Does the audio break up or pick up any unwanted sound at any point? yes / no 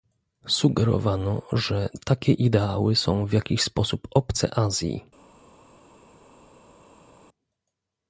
no